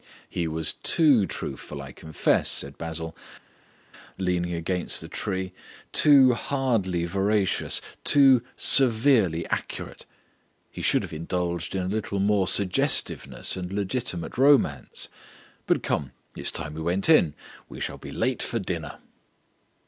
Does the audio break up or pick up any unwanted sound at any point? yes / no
no